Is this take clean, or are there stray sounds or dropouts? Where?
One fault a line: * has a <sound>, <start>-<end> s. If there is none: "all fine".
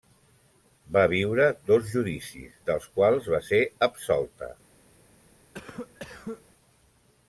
* has a cough, 5.5-6.4 s